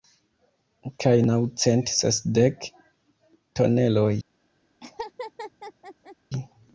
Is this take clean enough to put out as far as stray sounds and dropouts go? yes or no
no